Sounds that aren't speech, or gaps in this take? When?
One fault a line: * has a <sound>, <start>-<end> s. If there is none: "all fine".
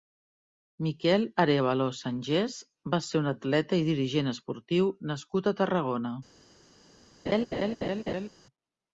* has a laugh, 7.3-8.3 s